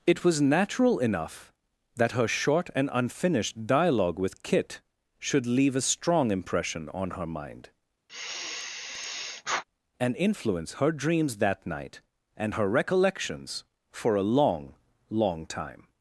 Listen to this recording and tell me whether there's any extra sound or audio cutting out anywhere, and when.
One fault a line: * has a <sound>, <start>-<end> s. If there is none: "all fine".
* has a sigh, 8.1-9.6 s